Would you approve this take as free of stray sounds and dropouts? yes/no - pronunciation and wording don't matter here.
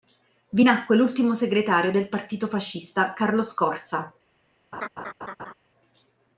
no